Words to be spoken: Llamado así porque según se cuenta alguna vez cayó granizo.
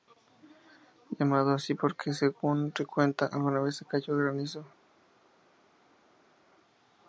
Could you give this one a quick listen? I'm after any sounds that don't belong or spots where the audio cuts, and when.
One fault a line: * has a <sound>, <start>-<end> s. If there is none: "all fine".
all fine